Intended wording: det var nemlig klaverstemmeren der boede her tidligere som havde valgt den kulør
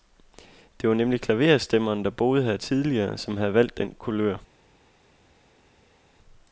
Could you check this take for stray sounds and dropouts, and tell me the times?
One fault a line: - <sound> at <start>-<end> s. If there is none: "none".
none